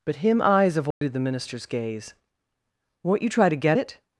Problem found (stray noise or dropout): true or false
true